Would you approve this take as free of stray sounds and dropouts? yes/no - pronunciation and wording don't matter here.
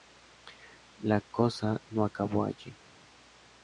yes